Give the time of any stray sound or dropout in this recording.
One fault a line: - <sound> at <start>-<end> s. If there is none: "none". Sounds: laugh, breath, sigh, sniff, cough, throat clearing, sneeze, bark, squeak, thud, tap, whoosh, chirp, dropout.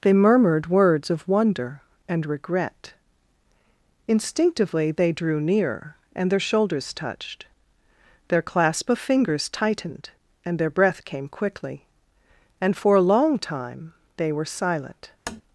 - tap at 15.3-15.4 s